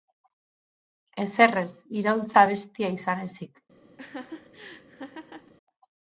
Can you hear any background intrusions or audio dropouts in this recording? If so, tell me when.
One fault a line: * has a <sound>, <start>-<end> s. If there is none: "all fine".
* has a laugh, 4.0-5.5 s